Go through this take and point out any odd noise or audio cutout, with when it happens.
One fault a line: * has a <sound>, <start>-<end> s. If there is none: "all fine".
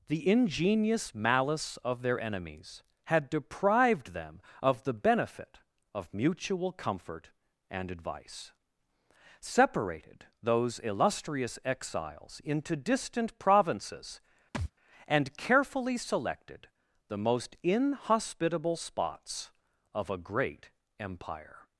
* has a thud, 14.5-14.7 s